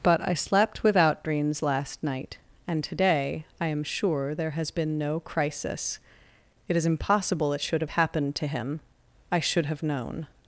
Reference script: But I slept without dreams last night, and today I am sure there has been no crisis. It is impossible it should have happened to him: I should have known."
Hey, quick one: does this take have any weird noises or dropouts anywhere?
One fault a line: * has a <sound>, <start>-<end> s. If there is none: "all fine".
all fine